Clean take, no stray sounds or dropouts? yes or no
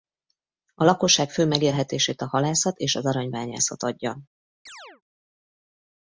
no